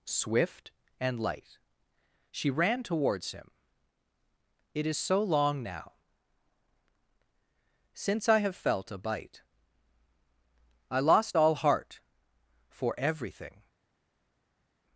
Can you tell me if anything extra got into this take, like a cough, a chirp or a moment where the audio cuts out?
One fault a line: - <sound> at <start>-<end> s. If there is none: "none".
none